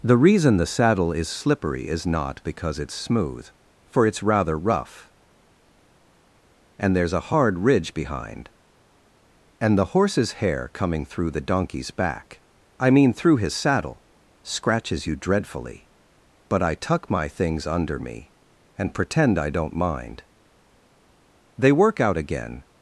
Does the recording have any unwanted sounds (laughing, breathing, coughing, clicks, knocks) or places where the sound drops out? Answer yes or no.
no